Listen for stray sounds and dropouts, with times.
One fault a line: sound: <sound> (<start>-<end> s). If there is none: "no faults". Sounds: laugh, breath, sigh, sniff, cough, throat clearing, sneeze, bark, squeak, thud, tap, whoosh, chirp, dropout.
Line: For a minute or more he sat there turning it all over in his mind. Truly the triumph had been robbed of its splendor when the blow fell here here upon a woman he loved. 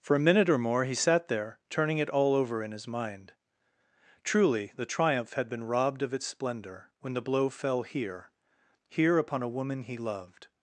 no faults